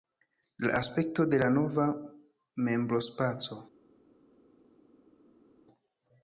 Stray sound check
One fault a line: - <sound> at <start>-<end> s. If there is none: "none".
none